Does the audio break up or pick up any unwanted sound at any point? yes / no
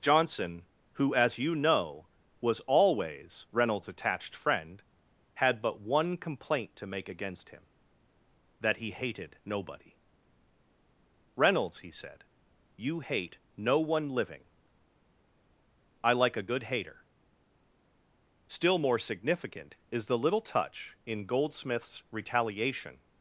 no